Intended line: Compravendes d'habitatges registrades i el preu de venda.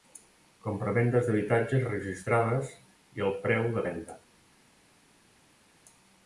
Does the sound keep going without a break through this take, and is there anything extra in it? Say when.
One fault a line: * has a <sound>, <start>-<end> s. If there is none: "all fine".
all fine